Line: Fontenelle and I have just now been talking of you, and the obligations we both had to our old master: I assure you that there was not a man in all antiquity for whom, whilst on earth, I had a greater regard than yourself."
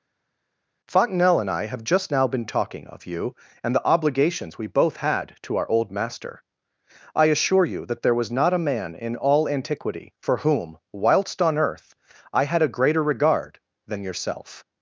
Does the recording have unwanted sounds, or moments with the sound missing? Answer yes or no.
no